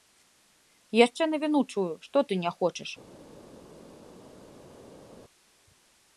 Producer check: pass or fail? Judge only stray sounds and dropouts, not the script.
pass